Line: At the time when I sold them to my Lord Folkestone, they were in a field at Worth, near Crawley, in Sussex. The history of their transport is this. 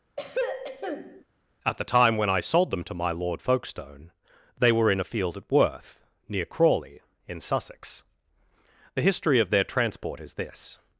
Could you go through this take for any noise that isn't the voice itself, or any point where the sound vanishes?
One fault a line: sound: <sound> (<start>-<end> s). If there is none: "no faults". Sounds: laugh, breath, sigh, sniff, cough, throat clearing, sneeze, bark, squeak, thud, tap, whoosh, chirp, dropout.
sound: throat clearing (0.2-1.2 s)